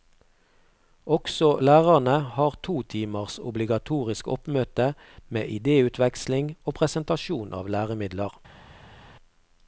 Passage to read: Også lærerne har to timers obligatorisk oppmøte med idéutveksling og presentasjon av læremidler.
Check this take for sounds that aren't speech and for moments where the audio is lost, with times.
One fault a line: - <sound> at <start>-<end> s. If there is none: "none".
none